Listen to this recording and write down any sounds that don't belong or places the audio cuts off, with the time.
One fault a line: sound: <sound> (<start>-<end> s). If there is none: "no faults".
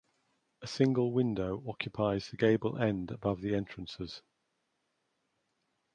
no faults